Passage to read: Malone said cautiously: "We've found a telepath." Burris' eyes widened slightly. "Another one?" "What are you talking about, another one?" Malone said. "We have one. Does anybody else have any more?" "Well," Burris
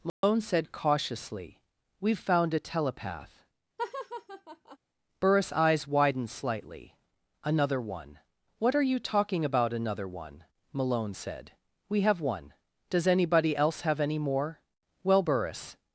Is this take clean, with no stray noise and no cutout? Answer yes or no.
no